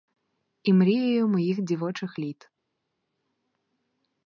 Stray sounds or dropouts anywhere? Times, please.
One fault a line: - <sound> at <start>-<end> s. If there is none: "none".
none